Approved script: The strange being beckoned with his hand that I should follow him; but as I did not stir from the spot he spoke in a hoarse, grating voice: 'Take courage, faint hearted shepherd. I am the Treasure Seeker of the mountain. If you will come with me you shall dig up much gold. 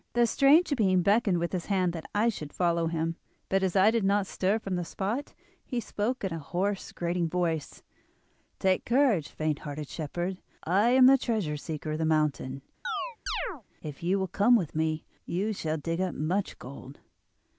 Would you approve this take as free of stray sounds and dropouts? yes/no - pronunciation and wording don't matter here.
no